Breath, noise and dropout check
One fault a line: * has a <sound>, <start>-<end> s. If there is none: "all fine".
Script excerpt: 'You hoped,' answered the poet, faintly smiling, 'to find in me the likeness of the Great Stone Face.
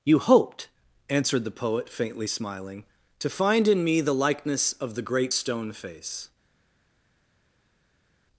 all fine